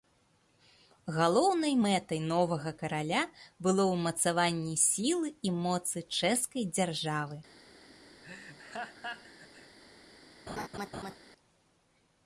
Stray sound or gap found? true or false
true